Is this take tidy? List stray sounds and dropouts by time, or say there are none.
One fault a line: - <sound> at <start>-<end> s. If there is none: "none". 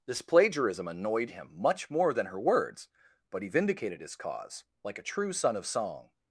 none